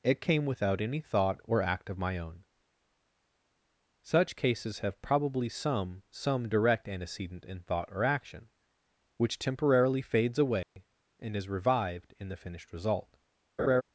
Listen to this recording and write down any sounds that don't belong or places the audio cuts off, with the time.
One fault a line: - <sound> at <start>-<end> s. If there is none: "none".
- dropout at 10.6-10.8 s
- laugh at 13.6-13.8 s